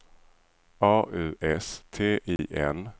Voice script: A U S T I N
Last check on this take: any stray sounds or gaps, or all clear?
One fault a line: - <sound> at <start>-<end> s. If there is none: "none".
- dropout at 2.4-2.4 s